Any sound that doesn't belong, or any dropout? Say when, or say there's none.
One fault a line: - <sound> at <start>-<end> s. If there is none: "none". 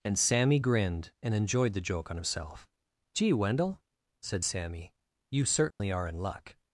- dropout at 5.7-5.8 s